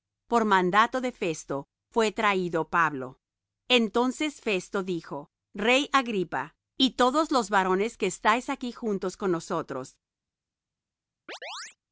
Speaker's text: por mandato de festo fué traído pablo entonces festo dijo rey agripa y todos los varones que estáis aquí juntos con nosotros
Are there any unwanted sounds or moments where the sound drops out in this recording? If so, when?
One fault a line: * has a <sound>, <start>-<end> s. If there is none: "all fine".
* has a chirp, 11.3-11.8 s